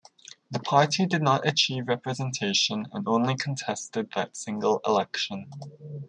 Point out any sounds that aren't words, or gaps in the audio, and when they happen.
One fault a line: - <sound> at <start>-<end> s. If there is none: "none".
none